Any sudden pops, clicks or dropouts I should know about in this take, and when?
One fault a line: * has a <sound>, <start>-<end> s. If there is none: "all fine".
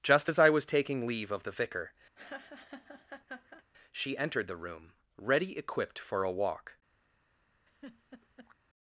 * has a laugh, 2.2-3.6 s
* has a laugh, 7.7-8.6 s